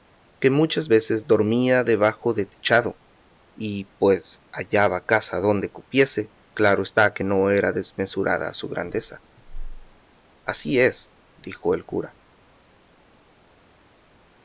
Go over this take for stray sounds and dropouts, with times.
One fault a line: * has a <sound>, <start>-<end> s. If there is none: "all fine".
all fine